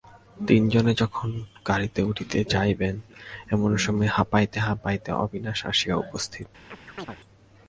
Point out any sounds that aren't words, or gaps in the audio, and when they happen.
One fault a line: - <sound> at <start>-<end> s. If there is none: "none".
- chirp at 6.7-7.2 s